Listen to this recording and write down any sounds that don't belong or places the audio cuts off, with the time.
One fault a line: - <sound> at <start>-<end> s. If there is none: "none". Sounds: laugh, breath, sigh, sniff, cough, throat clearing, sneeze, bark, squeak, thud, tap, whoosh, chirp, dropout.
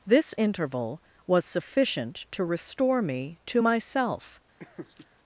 - laugh at 4.6-5.1 s